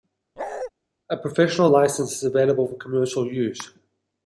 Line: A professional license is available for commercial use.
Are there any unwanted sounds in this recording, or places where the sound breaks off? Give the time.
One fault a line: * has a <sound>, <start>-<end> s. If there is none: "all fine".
* has a bark, 0.4-0.7 s